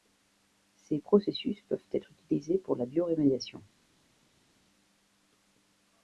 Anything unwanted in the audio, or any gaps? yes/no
no